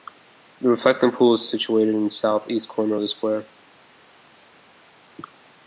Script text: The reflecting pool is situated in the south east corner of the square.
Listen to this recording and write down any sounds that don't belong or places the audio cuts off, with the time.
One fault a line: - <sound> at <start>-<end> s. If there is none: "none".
none